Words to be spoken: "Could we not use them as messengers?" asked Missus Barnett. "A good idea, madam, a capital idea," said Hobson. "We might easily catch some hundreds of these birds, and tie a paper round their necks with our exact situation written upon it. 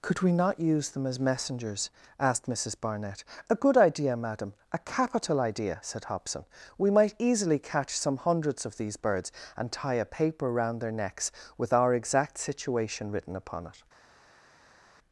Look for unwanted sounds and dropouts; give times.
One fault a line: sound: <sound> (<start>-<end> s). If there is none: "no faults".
no faults